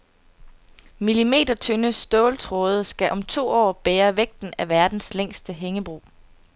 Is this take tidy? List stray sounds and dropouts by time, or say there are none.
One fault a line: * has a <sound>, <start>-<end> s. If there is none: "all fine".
all fine